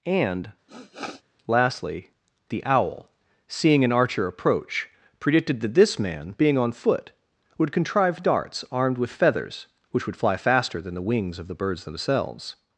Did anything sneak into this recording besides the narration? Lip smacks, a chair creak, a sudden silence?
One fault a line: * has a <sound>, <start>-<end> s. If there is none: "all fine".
* has a sniff, 0.7-1.2 s